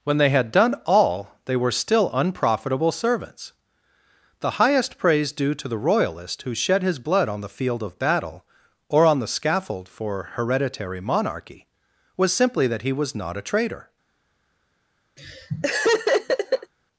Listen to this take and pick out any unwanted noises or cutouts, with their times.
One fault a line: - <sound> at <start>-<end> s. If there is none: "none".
- laugh at 15.2-16.7 s